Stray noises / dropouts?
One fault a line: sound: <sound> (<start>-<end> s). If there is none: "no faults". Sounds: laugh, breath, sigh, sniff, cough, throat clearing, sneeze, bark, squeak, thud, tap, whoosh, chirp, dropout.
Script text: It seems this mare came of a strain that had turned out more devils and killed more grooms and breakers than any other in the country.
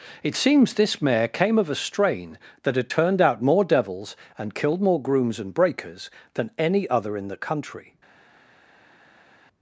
no faults